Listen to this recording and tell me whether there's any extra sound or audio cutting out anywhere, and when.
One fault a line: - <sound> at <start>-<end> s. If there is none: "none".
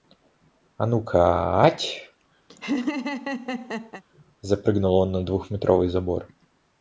- laugh at 2.5-4.0 s